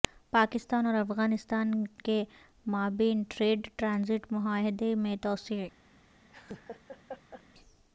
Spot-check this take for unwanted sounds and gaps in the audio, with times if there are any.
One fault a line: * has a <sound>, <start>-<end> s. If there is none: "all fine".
* has a laugh, 6.3-7.4 s